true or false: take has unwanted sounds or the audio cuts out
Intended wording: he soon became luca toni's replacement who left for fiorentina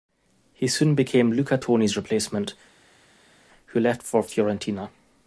false